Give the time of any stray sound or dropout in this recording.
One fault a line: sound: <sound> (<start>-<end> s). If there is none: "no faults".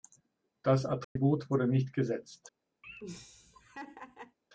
sound: dropout (1.0-1.2 s)
sound: laugh (2.8-4.4 s)